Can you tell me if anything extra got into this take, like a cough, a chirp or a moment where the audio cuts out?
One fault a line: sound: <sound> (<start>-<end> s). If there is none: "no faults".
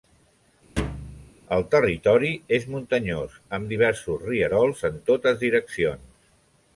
sound: thud (0.8-1.3 s)